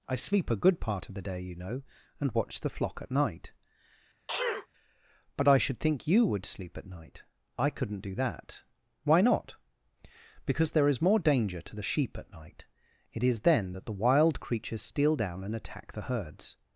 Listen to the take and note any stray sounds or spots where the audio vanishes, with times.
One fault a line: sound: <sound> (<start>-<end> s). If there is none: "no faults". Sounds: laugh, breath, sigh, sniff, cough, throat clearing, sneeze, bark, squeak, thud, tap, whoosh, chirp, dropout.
sound: sneeze (4.3-4.7 s)